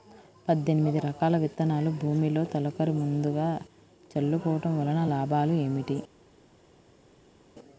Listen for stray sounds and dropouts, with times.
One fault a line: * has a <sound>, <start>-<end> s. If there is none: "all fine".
all fine